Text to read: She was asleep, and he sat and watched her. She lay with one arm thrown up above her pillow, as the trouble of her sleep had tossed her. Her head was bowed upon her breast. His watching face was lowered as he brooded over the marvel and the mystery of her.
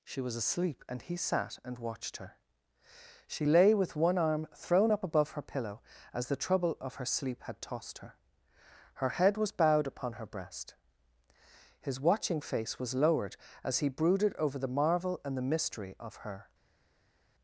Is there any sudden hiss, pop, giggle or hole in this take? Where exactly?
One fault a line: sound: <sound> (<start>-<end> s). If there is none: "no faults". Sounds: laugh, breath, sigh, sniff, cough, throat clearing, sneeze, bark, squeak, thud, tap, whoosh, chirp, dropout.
no faults